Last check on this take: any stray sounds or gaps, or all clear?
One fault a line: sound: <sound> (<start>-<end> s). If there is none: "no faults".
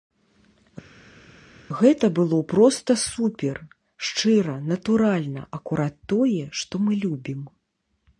no faults